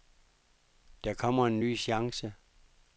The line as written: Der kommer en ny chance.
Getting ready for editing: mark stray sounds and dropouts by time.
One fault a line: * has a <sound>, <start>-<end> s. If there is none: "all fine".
all fine